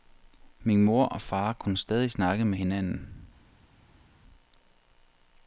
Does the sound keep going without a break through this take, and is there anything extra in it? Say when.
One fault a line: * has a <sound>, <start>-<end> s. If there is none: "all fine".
all fine